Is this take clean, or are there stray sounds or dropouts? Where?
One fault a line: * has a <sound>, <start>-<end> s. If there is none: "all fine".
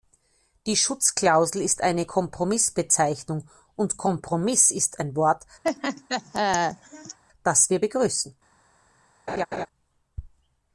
* has a laugh, 5.6-7.2 s
* has a laugh, 9.3-9.7 s